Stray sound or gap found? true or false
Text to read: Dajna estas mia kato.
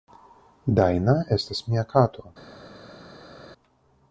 false